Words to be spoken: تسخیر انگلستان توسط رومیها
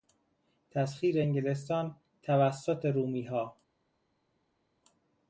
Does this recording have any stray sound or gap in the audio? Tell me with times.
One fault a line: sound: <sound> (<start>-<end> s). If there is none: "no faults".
no faults